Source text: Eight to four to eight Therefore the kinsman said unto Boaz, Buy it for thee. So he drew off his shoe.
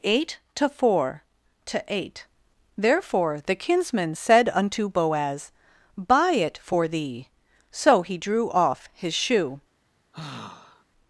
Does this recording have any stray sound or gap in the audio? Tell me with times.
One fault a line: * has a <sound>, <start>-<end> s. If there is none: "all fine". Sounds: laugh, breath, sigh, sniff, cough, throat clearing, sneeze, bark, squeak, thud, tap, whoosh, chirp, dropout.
* has a sigh, 10.1-10.8 s